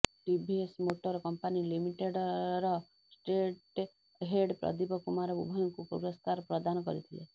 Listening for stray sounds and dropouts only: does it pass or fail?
pass